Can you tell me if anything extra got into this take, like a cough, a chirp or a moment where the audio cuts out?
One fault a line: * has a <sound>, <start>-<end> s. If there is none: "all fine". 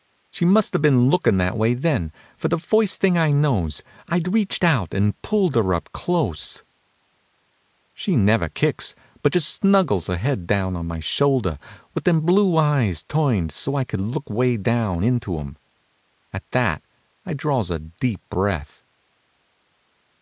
all fine